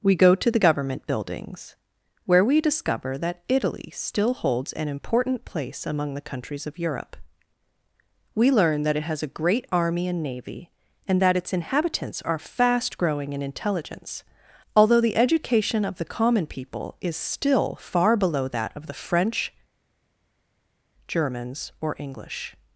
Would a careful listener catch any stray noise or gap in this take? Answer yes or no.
no